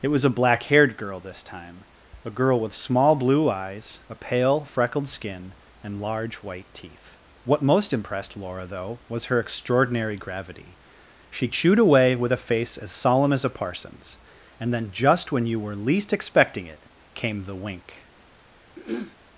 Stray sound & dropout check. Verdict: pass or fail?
fail